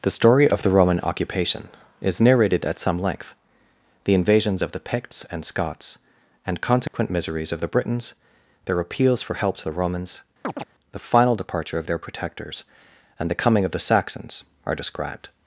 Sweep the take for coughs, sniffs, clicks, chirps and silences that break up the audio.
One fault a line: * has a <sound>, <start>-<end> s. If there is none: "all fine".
* has a dropout, 6.9-6.9 s
* has a chirp, 10.4-10.6 s